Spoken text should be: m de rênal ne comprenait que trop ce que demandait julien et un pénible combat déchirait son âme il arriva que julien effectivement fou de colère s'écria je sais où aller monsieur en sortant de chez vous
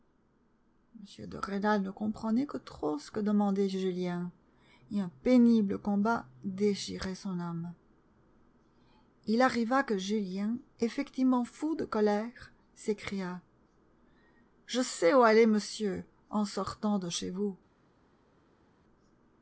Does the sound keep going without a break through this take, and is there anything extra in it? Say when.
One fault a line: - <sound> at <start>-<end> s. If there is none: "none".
none